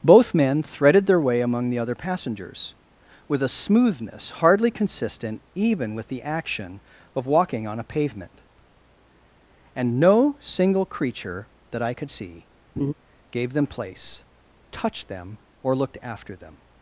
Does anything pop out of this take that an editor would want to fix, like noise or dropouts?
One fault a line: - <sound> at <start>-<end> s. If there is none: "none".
- laugh at 12.8-12.9 s